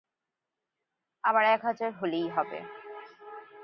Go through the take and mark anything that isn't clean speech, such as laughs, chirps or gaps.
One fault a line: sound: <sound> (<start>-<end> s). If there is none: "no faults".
no faults